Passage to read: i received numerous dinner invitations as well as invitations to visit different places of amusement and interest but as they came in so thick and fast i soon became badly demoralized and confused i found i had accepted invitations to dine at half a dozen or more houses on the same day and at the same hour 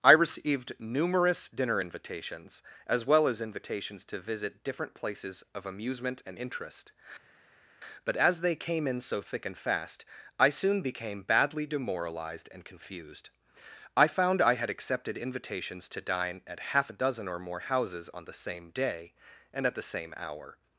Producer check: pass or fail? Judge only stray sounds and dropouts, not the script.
pass